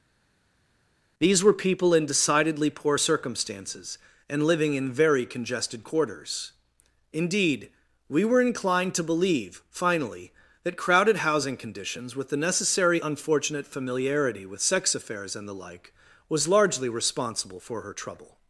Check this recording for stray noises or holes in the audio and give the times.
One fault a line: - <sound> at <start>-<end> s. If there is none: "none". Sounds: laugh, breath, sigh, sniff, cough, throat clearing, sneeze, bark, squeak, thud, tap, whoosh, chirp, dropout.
none